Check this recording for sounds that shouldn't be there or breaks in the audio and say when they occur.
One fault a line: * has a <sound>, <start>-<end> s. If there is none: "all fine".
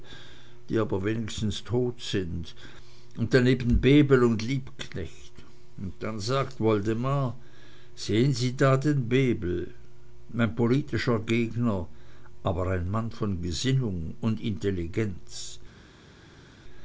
all fine